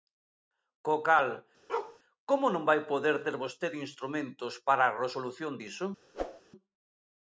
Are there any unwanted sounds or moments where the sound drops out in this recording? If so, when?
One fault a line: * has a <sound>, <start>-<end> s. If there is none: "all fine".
* has a bark, 1.7-2.0 s
* has a whoosh, 6.1-6.4 s